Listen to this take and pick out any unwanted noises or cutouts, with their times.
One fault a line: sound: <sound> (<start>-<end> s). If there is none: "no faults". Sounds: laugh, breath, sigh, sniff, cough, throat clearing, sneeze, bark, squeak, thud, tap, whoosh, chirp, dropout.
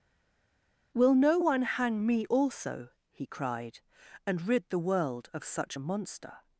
no faults